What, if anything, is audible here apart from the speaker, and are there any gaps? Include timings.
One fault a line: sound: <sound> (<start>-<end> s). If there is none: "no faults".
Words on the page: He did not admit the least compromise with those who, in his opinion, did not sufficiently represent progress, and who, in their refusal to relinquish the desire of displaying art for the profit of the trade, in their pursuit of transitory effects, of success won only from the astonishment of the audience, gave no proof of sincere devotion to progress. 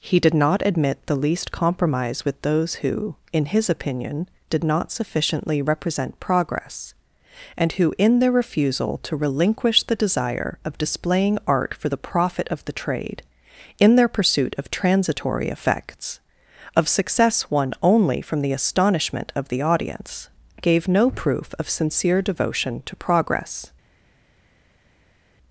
no faults